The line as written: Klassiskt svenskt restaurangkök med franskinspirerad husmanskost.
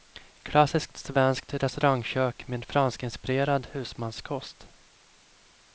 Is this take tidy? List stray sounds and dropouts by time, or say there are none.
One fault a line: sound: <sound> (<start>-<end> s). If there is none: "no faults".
no faults